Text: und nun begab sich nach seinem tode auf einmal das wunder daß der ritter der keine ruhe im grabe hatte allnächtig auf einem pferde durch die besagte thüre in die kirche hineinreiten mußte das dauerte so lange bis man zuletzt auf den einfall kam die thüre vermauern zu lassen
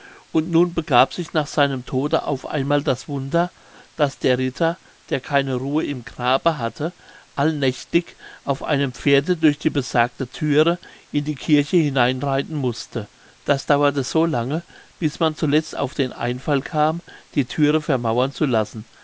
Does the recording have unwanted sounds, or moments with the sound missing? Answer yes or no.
no